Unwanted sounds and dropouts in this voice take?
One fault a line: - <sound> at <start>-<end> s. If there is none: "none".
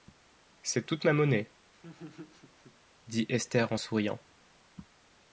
- laugh at 1.7-2.8 s